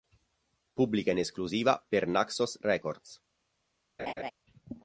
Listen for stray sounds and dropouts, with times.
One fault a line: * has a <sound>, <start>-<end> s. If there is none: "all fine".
* has a laugh, 4.0-4.3 s